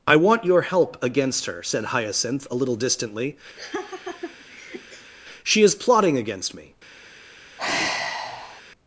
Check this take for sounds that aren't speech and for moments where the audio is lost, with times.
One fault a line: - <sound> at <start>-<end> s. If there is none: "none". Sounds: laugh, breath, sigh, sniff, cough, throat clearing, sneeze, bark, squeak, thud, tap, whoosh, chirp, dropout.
- laugh at 3.6-5.1 s
- sigh at 7.6-8.6 s